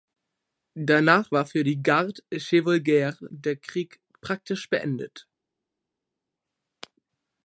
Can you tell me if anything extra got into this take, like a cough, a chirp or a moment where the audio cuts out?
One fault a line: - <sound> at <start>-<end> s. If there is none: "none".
none